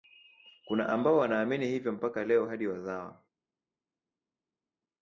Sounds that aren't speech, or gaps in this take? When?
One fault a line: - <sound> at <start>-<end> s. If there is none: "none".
none